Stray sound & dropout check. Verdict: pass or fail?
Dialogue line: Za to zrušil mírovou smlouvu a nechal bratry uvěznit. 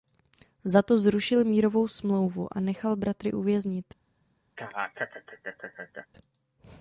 fail